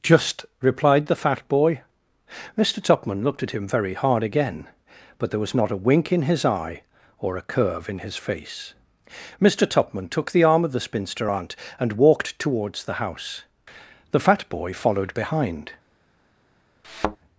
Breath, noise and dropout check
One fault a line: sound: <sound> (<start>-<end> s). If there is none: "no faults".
sound: thud (16.8-17.2 s)